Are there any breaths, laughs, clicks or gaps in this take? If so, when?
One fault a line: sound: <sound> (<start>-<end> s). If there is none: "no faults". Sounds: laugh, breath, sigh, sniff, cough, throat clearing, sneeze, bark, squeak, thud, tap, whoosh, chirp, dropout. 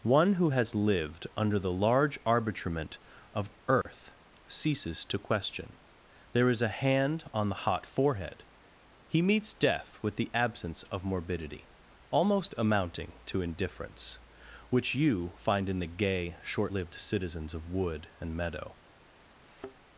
sound: dropout (3.8-3.9 s)
sound: thud (19.4-19.8 s)